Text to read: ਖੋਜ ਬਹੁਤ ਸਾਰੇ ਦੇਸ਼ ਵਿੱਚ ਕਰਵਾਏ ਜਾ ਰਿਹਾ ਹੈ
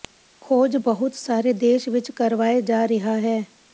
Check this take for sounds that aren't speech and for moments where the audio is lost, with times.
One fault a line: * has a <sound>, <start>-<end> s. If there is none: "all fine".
all fine